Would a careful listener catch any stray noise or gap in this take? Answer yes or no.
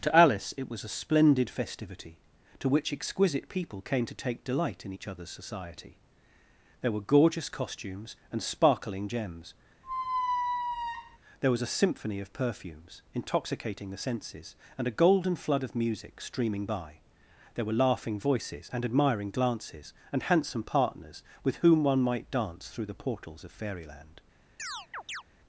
yes